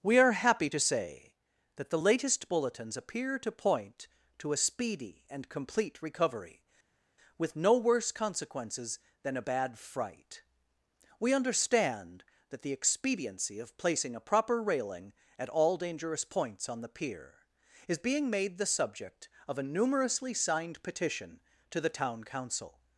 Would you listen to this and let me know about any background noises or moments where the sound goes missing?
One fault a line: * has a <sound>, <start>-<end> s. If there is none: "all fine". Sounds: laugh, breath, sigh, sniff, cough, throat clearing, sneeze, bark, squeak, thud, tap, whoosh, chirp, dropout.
all fine